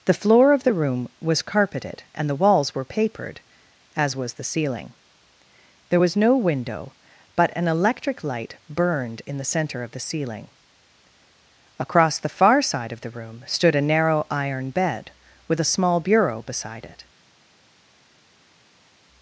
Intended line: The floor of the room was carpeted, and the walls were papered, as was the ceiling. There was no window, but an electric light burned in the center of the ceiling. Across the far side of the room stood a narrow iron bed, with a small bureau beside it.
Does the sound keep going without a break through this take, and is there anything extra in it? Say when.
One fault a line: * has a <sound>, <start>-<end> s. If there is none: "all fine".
all fine